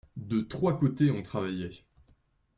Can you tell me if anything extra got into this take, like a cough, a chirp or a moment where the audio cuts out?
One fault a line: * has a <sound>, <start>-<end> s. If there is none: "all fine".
all fine